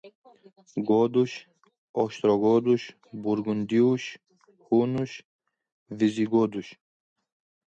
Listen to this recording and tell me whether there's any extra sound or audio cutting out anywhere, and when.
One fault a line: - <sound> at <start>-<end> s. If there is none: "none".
none